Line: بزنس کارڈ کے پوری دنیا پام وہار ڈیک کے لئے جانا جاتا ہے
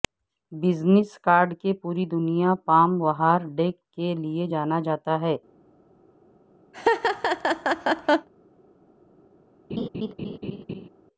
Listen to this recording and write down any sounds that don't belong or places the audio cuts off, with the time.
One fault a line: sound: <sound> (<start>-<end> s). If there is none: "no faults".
sound: laugh (6.7-8.3 s)
sound: laugh (9.7-10.9 s)